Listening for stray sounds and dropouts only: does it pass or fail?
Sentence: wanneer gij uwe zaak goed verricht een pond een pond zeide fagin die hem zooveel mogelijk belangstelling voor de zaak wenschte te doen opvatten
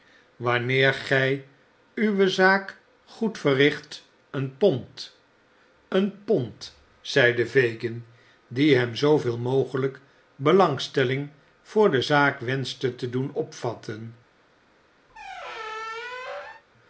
fail